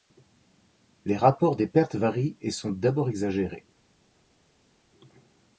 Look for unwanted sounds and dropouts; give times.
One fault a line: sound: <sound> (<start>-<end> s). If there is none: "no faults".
no faults